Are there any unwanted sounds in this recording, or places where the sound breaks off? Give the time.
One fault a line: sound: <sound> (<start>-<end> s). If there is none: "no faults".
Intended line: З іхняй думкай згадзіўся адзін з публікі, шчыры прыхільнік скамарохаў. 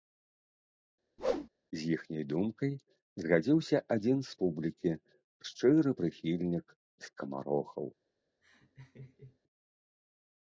sound: whoosh (1.2-1.5 s)
sound: laugh (8.4-9.4 s)